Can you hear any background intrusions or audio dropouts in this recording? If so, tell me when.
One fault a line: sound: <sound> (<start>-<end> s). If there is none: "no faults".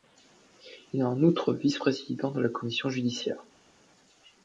no faults